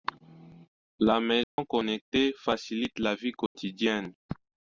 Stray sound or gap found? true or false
true